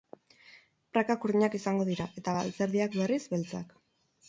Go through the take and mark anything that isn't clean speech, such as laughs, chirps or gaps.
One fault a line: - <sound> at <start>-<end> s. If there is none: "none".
none